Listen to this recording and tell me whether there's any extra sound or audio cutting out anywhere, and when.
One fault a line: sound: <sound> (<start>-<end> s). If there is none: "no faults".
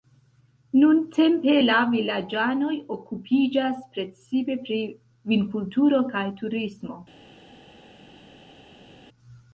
no faults